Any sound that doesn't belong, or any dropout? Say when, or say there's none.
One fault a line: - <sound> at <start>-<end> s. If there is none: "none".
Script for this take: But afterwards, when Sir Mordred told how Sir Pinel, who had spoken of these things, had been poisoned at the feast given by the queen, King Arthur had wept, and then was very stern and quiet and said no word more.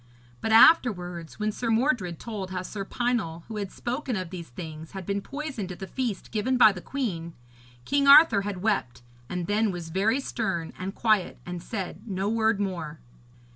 none